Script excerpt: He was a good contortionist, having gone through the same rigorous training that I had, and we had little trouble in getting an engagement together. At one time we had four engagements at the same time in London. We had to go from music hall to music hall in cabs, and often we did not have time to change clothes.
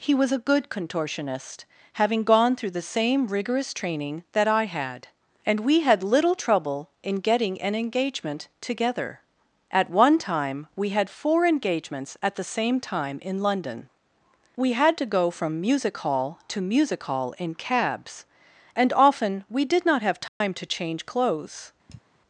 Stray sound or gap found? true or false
true